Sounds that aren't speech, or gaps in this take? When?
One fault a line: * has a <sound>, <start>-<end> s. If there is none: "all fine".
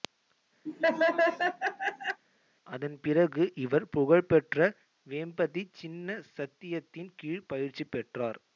* has a laugh, 0.7-2.2 s